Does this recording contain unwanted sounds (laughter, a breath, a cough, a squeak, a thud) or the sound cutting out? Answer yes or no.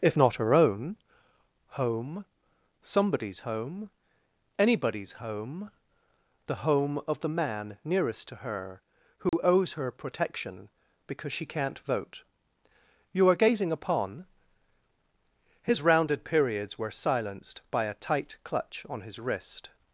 yes